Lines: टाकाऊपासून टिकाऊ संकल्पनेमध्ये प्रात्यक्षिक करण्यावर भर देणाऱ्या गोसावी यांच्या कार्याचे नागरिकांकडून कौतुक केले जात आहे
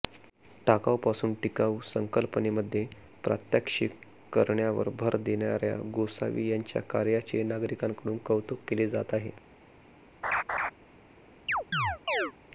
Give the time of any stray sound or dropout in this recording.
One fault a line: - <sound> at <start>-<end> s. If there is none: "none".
- laugh at 10.2-10.7 s
- chirp at 11.5-12.3 s